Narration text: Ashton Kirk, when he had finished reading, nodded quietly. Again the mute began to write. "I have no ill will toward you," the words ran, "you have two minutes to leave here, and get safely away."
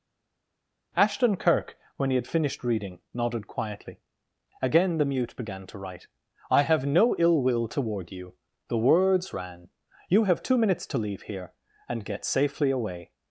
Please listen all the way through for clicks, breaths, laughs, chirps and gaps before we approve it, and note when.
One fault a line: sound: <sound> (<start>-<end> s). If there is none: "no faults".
no faults